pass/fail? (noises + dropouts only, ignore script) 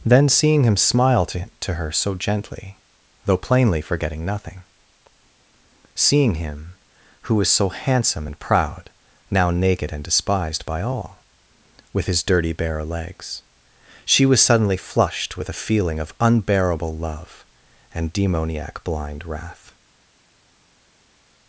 pass